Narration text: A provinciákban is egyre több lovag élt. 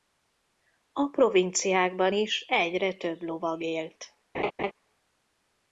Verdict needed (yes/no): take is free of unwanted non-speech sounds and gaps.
no